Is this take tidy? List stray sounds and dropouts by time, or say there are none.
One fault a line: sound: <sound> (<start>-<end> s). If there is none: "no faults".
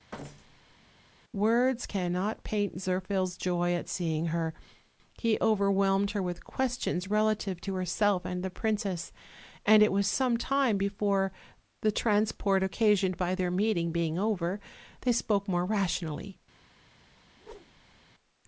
sound: thud (0.1-0.8 s)
sound: whoosh (17.3-18.0 s)